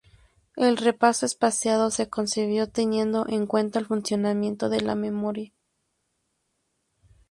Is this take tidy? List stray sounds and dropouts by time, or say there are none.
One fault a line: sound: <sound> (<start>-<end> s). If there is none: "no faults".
no faults